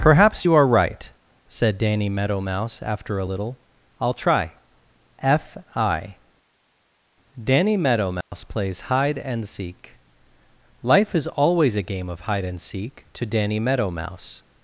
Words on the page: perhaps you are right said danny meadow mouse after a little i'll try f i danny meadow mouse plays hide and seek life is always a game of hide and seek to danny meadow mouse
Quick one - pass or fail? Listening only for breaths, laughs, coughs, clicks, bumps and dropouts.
fail